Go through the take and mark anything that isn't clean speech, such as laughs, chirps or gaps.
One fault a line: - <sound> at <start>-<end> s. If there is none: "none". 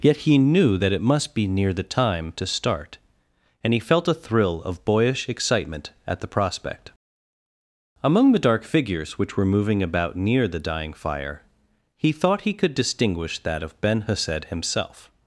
none